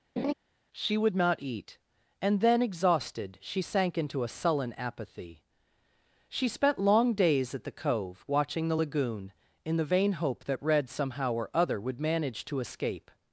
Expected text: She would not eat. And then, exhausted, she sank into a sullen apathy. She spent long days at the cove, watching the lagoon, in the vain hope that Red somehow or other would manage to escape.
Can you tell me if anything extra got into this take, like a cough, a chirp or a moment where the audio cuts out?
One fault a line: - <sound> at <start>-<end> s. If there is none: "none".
- laugh at 0.2-0.3 s